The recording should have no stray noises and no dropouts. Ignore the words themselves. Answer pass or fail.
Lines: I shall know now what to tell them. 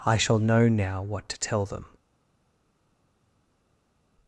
pass